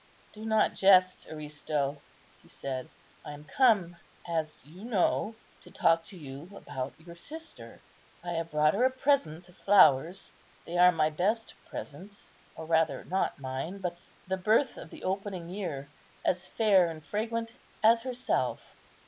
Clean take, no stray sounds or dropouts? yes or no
yes